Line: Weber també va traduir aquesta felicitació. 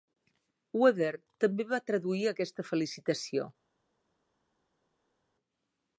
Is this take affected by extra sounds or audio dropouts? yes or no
no